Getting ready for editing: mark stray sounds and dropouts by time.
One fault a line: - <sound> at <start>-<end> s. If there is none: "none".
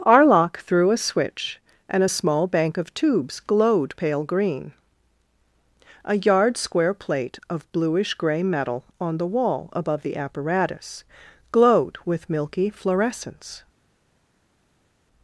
none